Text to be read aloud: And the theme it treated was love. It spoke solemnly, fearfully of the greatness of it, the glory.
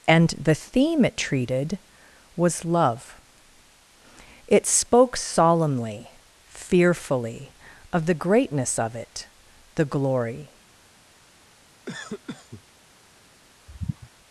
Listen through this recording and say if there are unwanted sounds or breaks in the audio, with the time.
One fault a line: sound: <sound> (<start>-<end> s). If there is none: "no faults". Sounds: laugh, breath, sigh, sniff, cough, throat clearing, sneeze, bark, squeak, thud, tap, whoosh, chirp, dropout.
sound: cough (11.9-12.6 s)
sound: sigh (13.7-14.1 s)